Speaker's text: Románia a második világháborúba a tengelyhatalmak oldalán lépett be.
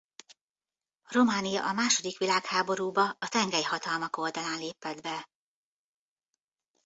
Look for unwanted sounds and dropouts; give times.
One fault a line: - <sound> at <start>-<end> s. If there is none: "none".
none